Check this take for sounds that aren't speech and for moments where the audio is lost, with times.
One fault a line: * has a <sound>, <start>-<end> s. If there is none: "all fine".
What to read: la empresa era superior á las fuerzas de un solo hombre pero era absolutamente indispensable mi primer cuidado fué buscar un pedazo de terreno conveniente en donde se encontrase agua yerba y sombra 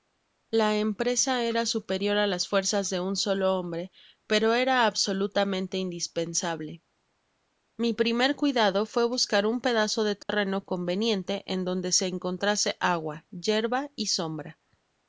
* has a dropout, 10.2-10.3 s